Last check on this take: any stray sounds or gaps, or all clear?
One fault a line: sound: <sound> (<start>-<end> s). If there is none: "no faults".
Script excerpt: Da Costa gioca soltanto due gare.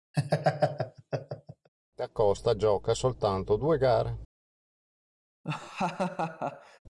sound: laugh (0.1-1.7 s)
sound: laugh (5.4-6.8 s)